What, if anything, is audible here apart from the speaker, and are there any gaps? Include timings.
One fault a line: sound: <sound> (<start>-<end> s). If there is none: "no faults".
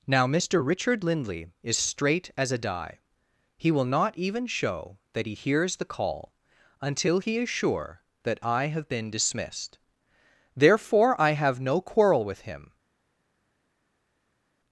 no faults